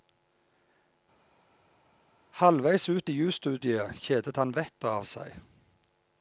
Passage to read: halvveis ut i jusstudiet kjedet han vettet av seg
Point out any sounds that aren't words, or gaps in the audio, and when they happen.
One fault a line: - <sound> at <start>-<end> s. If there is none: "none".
none